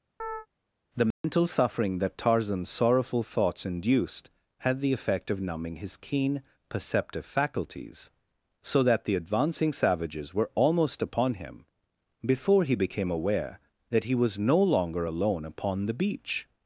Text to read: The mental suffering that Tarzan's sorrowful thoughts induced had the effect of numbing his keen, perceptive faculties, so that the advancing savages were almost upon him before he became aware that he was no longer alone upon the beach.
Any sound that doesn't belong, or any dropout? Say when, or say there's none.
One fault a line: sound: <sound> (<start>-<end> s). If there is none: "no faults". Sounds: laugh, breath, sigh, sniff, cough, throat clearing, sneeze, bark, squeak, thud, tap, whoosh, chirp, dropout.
sound: chirp (0.2-0.5 s)
sound: dropout (1.1-1.2 s)